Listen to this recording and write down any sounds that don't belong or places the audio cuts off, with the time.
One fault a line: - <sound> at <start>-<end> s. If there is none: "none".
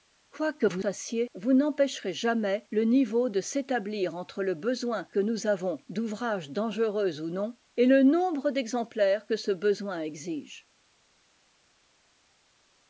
none